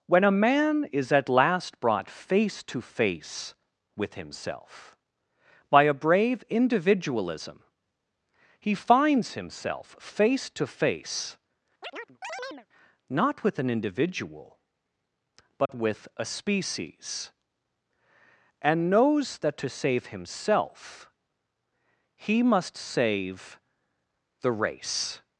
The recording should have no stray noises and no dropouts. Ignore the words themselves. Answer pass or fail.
fail